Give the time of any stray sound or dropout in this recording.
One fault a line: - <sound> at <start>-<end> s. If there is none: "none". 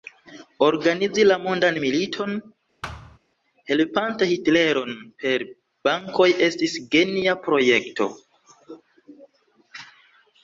- thud at 2.8-3.2 s